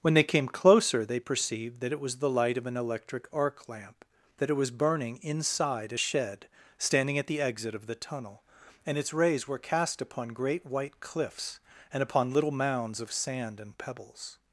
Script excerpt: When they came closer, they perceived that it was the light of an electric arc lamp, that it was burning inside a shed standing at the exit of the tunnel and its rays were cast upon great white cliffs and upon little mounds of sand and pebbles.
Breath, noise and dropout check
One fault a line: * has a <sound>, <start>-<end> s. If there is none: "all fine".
all fine